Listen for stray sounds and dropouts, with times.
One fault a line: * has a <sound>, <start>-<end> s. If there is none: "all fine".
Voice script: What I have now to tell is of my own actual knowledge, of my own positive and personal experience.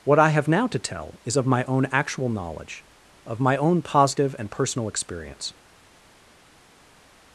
all fine